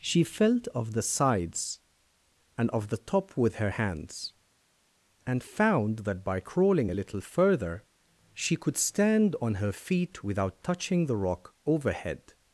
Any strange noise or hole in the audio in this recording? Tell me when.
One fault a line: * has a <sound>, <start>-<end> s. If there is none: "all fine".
all fine